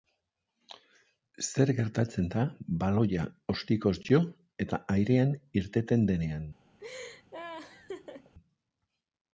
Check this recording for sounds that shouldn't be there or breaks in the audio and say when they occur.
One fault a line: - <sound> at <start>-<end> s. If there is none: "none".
- laugh at 6.8-8.3 s